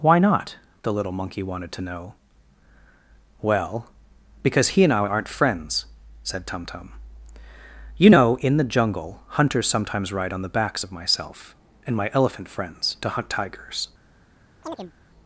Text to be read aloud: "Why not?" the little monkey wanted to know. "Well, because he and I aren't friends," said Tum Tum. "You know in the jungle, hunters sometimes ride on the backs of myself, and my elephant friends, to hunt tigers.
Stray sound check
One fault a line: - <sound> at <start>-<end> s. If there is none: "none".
- chirp at 14.6-14.9 s